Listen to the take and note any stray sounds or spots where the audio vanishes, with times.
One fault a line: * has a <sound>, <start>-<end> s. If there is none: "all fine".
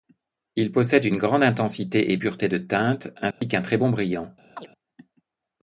* has a dropout, 3.3-3.4 s
* has a chirp, 4.6-4.7 s